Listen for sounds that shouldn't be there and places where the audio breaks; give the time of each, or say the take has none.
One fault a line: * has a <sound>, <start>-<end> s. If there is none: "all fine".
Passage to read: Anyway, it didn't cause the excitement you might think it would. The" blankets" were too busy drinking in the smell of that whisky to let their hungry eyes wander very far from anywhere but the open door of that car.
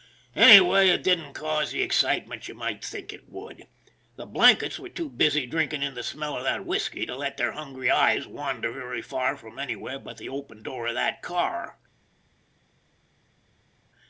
all fine